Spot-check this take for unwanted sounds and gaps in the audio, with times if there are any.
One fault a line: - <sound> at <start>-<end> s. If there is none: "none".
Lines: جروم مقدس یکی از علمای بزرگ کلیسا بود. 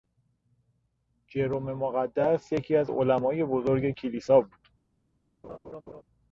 - laugh at 5.4-6.0 s